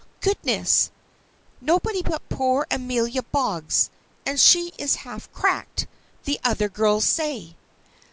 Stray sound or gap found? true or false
false